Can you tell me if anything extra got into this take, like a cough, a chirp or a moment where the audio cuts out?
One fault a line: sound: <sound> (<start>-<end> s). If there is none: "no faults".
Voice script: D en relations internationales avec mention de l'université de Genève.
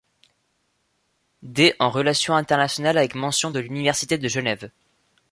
no faults